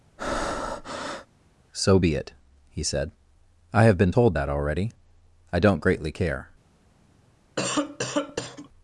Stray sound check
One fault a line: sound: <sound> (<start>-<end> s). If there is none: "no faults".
sound: breath (0.2-1.3 s)
sound: cough (7.6-8.7 s)